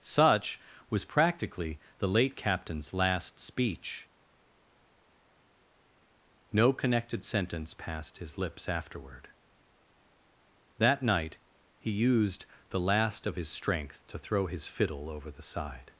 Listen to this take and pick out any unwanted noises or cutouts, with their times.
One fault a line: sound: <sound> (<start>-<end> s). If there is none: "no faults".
no faults